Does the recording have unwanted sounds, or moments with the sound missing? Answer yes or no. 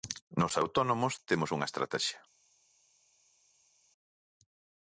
no